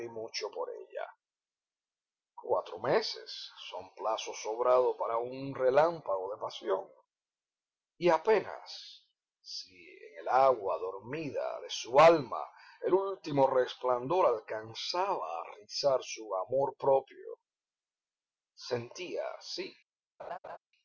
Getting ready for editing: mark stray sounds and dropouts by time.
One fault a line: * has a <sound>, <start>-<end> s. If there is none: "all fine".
* has a laugh, 20.2-20.6 s